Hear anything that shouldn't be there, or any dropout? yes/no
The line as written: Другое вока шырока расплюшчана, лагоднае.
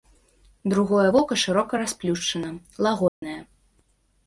yes